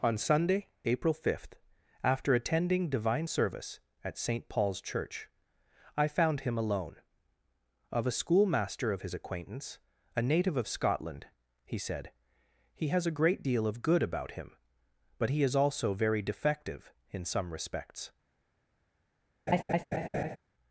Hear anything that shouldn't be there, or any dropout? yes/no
yes